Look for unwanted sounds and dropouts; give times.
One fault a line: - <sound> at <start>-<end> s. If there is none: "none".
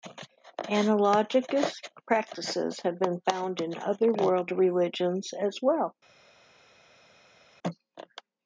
none